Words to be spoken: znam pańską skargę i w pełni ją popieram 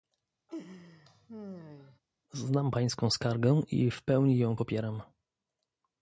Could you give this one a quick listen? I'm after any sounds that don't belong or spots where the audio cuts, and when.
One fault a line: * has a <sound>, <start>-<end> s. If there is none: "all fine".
* has a laugh, 0.5-2.0 s